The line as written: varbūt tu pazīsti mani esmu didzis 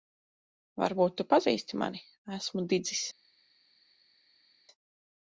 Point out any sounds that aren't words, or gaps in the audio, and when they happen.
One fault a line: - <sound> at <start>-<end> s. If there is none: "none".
none